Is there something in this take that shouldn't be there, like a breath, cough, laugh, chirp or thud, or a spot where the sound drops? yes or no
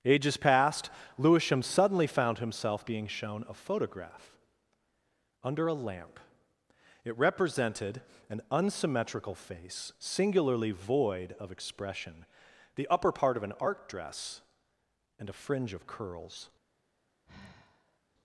yes